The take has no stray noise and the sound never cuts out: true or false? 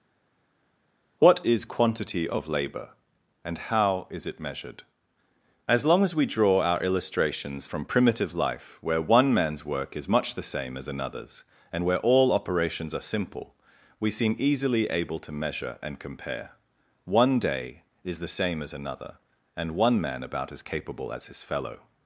true